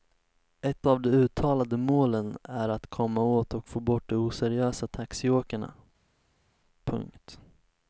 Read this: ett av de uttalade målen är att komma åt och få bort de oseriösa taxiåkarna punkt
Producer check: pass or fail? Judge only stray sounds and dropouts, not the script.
pass